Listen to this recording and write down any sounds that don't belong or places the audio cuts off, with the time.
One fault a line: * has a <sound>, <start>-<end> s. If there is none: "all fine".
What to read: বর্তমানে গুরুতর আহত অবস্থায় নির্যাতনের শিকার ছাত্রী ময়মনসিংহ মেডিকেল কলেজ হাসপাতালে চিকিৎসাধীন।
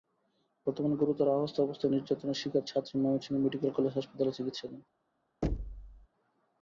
* has a thud, 5.4-6.1 s